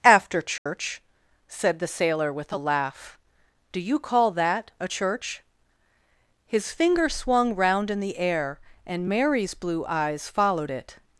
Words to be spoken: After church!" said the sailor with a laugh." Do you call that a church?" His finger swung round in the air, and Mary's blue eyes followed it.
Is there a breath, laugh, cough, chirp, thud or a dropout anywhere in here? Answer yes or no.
yes